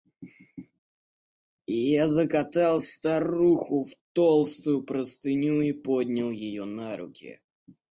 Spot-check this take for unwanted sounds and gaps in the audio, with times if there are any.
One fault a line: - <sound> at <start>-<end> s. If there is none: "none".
none